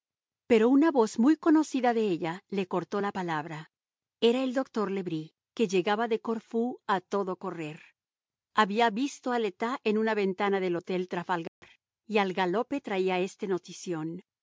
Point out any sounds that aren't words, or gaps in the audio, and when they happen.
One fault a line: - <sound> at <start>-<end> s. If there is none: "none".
- dropout at 11.5-11.6 s